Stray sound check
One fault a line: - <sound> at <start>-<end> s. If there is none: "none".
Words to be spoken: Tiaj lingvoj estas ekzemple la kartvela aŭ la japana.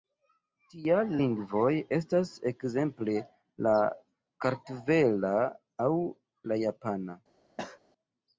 - cough at 7.6-7.8 s